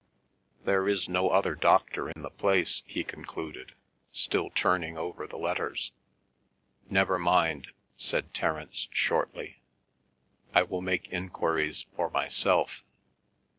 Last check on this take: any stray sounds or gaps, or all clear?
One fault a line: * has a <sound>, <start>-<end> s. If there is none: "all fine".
* has a dropout, 2.1-2.2 s